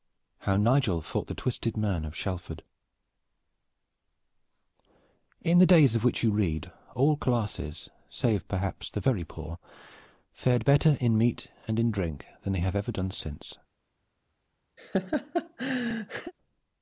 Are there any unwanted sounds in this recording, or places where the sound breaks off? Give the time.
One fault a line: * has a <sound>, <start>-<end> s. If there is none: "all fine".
* has a laugh, 14.8-16.3 s